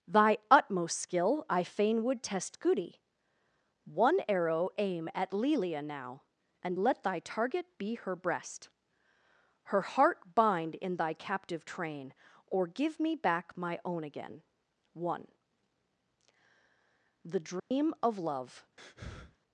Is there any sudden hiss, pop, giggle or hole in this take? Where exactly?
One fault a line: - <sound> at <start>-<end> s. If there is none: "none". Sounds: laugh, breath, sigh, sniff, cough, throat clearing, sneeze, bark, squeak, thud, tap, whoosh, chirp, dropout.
- dropout at 17.6-17.7 s
- breath at 18.8-19.4 s